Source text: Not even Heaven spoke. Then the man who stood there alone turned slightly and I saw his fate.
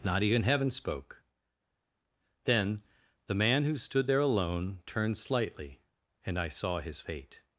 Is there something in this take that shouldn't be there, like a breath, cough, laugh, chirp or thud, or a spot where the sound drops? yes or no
no